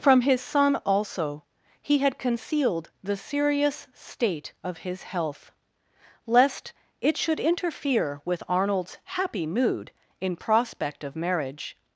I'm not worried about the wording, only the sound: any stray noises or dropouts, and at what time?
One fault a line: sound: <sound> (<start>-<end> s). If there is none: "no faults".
no faults